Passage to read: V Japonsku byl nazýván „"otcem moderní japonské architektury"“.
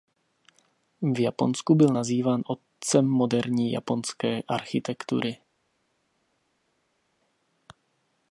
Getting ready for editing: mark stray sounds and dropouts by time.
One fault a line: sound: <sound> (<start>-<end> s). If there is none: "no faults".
no faults